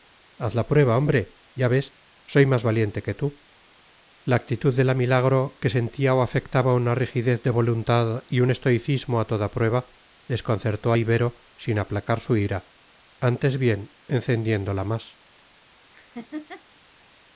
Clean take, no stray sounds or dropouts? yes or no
no